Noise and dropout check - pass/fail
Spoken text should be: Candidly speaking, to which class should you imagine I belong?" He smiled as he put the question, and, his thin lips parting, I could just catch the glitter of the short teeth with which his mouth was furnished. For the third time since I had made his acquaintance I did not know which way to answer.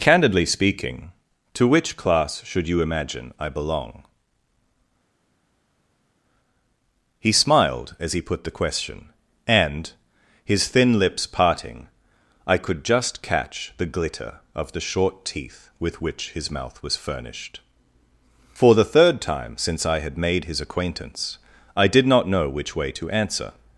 pass